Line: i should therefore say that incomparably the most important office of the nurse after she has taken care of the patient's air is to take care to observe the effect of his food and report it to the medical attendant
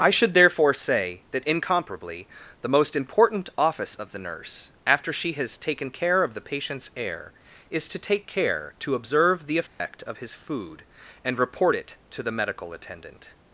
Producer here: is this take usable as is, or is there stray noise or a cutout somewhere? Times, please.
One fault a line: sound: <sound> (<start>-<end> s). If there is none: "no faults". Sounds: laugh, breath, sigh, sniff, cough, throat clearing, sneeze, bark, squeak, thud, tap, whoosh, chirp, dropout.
sound: dropout (9.7-9.8 s)